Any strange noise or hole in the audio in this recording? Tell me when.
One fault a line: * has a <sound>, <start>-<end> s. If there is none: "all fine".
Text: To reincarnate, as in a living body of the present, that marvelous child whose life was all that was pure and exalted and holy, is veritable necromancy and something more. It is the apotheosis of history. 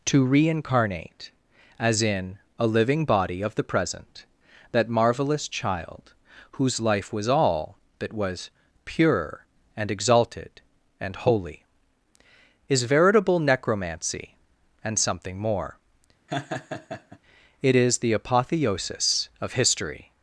* has a laugh, 16.3-17.2 s